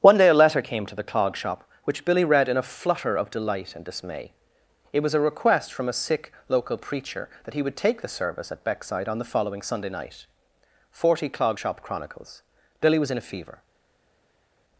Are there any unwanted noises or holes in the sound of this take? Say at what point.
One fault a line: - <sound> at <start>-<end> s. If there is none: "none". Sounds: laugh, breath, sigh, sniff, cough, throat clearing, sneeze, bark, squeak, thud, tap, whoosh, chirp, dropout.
none